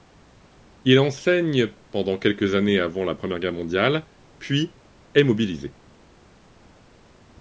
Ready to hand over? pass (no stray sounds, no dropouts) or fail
pass